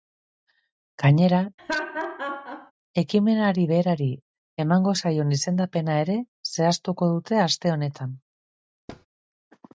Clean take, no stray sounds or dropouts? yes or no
no